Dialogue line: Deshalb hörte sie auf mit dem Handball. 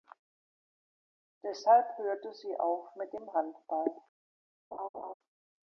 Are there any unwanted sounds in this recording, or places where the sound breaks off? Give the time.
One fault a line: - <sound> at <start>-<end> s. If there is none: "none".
- laugh at 4.7-5.1 s